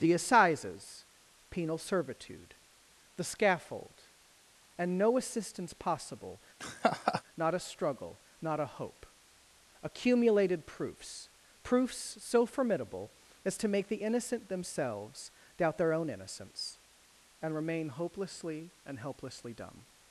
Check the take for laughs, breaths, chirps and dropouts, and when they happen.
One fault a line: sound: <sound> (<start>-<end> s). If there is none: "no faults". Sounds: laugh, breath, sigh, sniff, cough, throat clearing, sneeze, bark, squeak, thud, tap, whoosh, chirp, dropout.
sound: laugh (6.6-7.2 s)